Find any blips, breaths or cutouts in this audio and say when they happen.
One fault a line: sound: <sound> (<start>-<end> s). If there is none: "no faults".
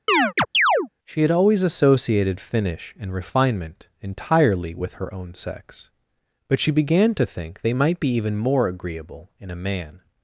sound: chirp (0.1-0.9 s)